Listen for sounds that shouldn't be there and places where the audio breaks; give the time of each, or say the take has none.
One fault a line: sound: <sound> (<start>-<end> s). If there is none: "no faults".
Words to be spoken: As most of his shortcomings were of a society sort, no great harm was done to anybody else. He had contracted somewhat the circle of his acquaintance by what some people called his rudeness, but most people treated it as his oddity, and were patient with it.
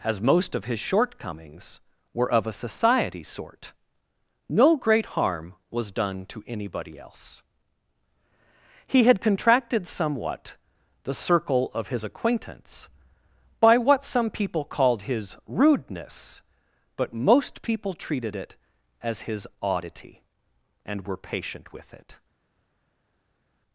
no faults